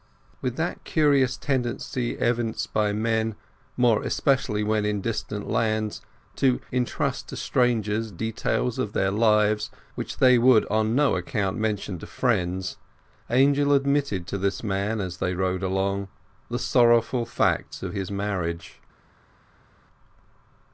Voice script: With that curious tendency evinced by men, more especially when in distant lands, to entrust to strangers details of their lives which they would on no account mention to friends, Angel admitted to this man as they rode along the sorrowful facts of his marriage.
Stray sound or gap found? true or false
false